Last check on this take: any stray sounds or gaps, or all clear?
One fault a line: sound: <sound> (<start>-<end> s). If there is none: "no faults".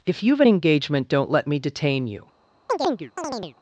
sound: chirp (2.7-3.6 s)